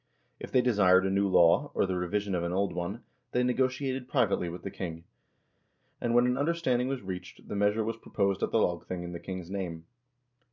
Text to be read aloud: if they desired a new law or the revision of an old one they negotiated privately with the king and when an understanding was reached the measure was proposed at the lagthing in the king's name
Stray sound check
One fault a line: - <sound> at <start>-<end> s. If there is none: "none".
none